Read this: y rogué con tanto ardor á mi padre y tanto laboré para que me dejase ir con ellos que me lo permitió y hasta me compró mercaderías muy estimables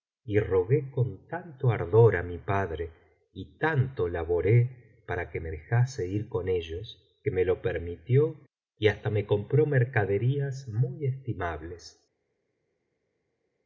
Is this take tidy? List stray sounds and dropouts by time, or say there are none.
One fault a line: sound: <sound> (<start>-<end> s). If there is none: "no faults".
no faults